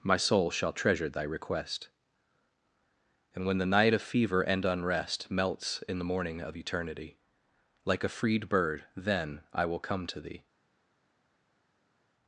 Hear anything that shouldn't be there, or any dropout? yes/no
no